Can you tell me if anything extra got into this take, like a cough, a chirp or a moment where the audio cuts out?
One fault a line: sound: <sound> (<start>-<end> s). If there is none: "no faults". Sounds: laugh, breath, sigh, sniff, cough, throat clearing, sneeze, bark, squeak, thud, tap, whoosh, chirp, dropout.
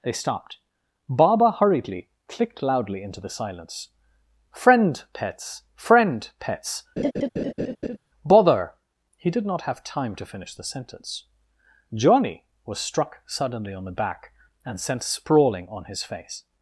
sound: laugh (7.0-8.0 s)